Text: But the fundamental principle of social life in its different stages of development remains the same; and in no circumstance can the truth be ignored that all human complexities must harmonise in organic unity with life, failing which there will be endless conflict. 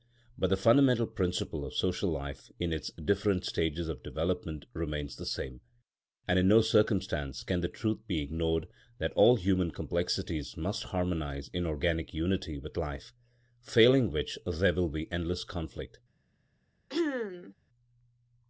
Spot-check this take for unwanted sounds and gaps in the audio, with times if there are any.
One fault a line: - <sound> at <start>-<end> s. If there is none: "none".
- throat clearing at 16.9-17.5 s